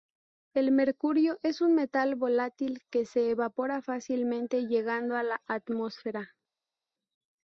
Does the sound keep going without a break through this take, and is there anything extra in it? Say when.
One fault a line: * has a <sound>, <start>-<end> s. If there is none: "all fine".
all fine